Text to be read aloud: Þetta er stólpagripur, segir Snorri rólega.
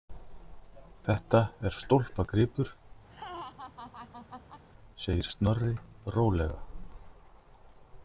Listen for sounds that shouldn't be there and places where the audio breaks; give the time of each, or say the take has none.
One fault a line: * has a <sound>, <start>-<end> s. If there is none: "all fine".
* has a laugh, 3.1-4.6 s